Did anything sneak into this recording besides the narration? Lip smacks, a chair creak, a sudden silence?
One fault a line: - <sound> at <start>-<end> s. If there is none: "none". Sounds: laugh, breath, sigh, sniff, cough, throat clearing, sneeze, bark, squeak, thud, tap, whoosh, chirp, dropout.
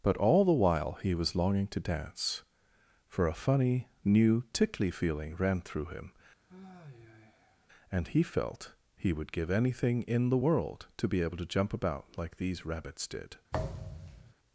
- sigh at 6.5-7.7 s
- thud at 13.5-14.3 s